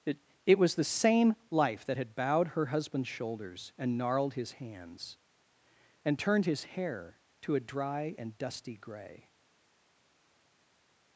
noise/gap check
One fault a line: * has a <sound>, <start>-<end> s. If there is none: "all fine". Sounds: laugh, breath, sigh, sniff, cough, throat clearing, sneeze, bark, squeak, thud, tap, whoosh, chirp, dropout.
all fine